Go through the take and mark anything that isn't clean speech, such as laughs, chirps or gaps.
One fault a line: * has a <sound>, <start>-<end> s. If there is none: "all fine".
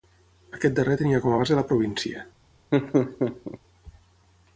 * has a laugh, 2.7-3.6 s